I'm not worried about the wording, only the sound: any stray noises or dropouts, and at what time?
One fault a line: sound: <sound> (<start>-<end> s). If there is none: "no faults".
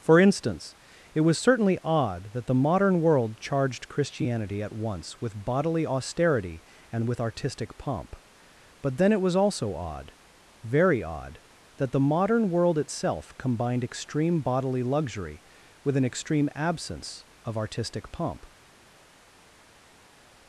no faults